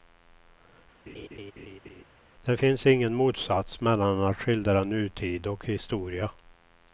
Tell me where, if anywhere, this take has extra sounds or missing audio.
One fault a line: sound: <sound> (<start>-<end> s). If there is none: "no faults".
sound: laugh (1.1-2.0 s)